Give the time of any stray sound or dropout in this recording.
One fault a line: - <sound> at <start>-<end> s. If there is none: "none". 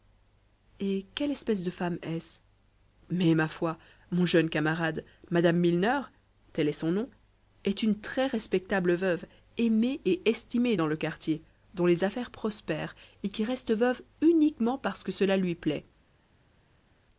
none